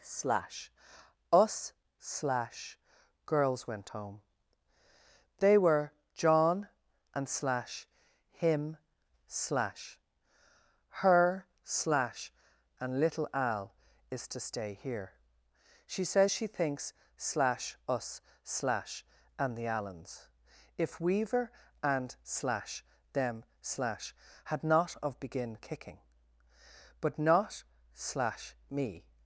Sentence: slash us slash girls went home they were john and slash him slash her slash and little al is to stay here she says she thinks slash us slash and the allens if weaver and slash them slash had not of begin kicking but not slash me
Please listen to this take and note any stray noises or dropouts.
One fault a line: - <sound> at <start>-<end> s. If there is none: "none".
none